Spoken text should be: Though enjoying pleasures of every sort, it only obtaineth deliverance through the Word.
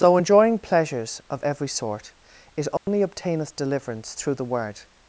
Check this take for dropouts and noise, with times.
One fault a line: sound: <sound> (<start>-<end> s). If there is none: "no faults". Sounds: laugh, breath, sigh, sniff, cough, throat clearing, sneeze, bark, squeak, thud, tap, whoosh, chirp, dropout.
sound: dropout (2.8-2.9 s)